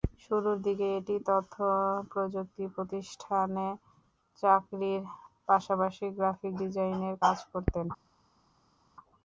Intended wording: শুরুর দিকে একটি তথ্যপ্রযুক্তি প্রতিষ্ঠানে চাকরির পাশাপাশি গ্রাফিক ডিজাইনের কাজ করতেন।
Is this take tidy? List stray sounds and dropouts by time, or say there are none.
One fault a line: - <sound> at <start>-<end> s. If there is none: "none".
none